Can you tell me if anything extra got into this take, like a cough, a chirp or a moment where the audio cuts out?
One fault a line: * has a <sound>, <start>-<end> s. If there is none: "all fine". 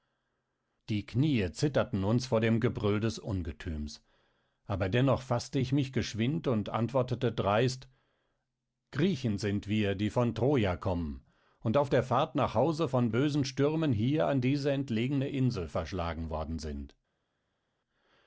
all fine